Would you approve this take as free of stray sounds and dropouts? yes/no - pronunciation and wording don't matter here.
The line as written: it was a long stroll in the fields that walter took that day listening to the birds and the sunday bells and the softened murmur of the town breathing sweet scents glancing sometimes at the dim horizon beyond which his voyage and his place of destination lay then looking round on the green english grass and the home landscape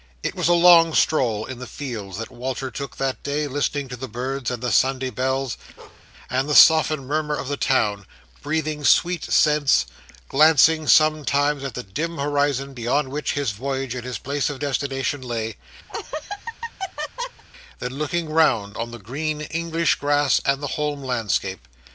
no